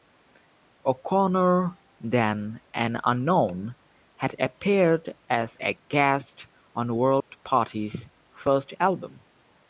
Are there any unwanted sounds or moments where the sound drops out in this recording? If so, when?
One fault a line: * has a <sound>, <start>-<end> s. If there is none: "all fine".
* has a dropout, 7.2-7.3 s